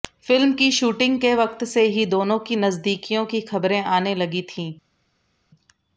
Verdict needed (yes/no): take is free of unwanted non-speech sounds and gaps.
yes